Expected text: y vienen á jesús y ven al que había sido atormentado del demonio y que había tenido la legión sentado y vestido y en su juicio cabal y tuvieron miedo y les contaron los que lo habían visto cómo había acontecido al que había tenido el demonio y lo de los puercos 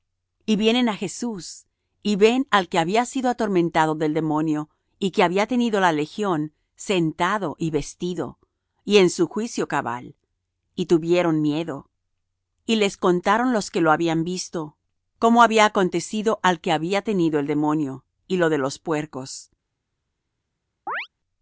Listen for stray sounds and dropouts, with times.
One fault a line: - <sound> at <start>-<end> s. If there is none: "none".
- chirp at 20.9-21.1 s